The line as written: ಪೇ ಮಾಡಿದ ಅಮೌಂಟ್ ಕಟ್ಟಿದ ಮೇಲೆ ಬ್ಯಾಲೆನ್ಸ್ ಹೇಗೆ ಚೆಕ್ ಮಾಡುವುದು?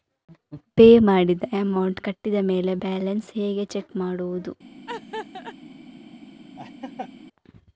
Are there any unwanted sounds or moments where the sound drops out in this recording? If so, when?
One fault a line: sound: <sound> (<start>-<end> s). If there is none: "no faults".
sound: laugh (4.9-5.6 s)
sound: laugh (6.6-7.1 s)